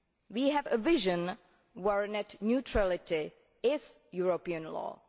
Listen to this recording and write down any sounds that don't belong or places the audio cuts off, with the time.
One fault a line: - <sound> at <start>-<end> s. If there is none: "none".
none